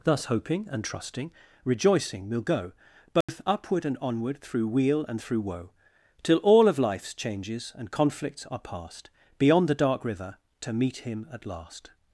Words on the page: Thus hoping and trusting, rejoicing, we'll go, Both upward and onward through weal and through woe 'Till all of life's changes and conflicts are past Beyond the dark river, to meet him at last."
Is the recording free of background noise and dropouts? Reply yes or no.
no